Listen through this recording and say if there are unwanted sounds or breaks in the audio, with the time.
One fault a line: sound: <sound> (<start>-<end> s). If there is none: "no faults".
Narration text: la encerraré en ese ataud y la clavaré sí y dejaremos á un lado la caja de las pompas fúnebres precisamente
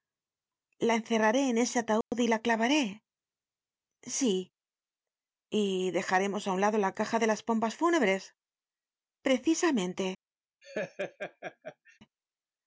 sound: dropout (2.0-2.1 s)
sound: laugh (10.6-12.0 s)